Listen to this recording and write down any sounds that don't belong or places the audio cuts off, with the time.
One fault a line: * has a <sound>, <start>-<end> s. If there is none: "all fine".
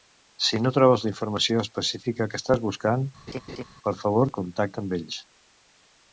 * has a laugh, 3.3-3.6 s